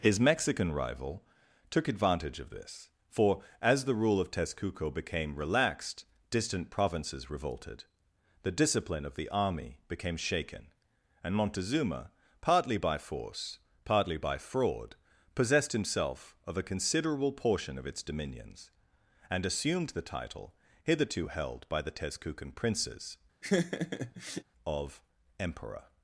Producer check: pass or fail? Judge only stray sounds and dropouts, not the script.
fail